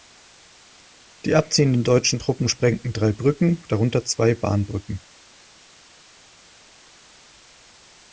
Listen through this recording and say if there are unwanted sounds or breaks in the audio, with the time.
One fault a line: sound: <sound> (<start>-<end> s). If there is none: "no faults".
no faults